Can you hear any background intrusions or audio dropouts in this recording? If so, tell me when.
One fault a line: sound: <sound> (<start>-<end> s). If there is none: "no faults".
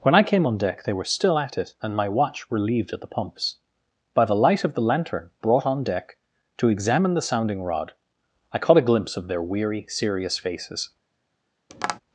sound: tap (11.7-12.0 s)